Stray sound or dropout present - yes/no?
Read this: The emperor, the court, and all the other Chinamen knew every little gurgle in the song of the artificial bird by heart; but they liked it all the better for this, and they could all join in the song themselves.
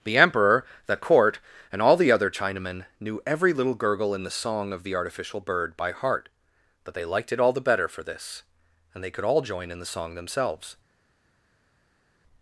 no